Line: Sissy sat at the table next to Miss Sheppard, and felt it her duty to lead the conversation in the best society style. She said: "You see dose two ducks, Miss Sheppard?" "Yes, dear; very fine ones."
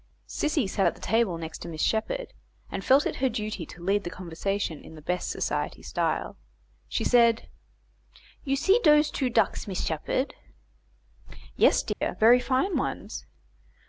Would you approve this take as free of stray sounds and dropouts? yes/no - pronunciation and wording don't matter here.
no